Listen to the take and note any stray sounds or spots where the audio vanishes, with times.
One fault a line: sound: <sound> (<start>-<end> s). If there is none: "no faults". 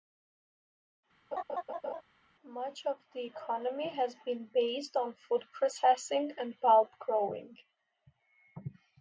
sound: laugh (1.3-2.0 s)